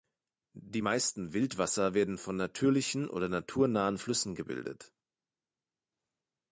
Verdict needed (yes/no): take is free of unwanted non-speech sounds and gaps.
yes